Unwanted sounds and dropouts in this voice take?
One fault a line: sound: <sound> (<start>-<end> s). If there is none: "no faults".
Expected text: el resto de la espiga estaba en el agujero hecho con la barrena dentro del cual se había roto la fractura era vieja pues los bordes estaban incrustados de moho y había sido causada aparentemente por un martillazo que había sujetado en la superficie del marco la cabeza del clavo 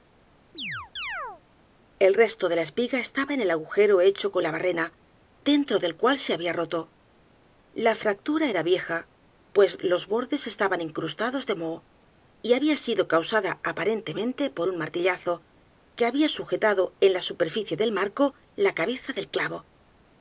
sound: chirp (0.5-1.4 s)